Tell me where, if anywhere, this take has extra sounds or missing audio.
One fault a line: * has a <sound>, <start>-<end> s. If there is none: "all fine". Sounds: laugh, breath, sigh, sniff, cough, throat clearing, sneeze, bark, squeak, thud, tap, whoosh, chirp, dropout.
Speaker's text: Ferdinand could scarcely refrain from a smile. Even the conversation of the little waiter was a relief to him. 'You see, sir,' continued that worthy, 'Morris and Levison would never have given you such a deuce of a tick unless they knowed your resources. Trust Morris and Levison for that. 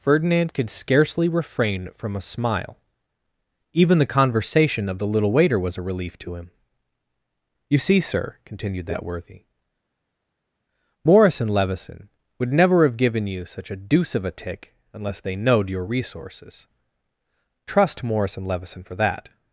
all fine